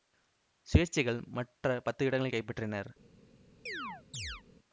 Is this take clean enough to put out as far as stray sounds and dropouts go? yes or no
no